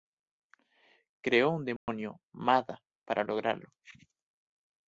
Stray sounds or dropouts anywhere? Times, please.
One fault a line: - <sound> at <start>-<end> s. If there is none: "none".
- dropout at 1.8-1.9 s